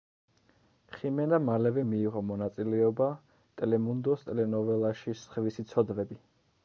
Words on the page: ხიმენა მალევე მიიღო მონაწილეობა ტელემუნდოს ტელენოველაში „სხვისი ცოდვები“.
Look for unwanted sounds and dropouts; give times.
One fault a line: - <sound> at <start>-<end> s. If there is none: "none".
none